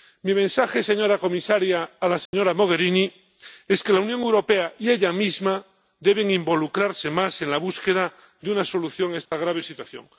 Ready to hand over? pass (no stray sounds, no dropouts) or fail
fail